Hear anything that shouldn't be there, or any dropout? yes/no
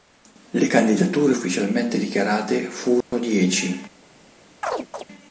yes